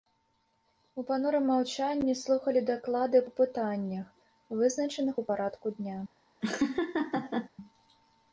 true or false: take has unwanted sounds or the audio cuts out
true